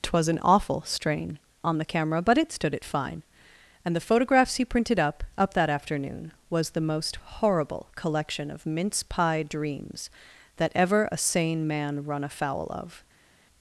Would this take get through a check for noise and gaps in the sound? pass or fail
pass